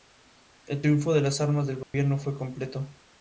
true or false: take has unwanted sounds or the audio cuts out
true